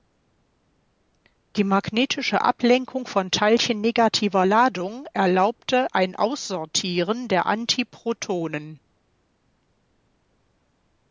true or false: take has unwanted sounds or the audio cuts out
false